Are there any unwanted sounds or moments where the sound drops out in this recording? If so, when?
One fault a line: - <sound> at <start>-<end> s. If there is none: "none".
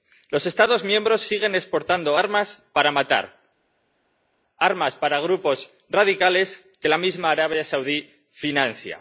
none